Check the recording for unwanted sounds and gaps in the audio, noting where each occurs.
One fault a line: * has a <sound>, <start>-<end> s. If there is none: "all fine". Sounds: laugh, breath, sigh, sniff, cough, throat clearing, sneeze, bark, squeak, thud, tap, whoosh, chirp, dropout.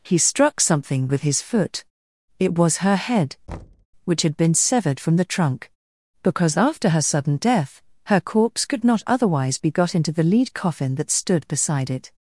* has a thud, 3.5-3.9 s